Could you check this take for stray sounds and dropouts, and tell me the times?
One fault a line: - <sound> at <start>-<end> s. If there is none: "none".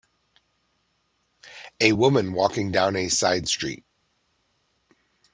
none